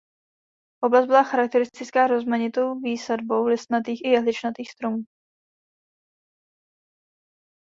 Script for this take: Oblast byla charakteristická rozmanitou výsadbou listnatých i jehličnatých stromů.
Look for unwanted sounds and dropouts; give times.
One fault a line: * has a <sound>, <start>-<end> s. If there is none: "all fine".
all fine